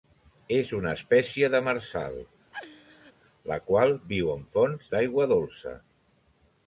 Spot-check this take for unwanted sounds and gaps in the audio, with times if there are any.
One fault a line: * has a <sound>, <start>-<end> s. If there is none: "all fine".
* has a laugh, 2.5-3.1 s